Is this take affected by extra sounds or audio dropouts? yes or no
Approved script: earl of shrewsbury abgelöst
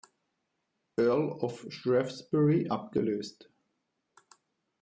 no